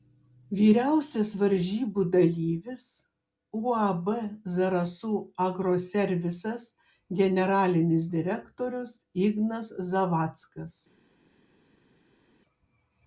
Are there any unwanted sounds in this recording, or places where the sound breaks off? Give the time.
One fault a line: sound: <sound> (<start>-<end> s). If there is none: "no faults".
no faults